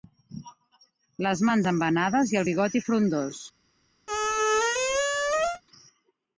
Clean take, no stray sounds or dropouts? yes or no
no